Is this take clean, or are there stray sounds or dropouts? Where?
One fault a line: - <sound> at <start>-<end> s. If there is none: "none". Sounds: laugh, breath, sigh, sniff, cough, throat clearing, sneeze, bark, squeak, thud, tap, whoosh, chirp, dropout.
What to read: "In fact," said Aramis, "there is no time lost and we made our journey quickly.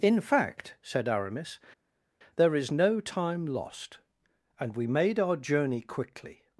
none